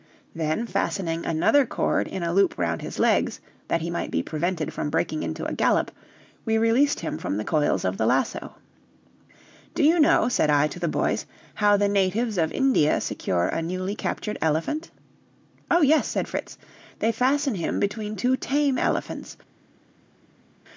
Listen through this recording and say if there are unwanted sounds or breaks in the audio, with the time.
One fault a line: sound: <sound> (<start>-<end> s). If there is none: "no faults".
no faults